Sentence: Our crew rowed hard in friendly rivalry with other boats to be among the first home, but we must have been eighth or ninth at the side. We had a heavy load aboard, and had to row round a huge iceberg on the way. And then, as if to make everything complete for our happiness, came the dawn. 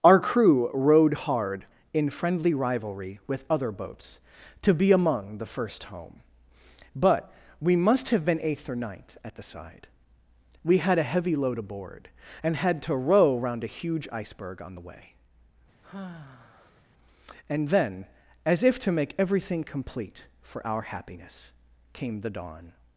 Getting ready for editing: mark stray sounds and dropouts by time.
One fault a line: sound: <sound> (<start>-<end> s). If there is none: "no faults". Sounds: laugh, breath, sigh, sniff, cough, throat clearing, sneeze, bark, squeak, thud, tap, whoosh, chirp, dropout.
sound: sigh (15.8-16.8 s)